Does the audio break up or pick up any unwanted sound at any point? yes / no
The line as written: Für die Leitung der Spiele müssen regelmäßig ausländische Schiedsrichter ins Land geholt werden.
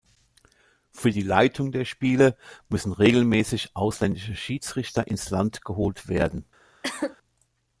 yes